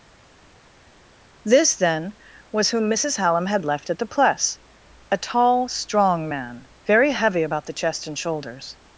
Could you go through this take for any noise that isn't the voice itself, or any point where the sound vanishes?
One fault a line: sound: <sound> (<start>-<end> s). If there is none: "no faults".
no faults